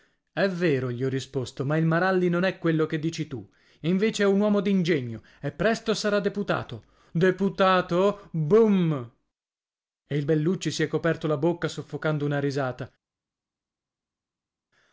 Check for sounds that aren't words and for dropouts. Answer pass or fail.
pass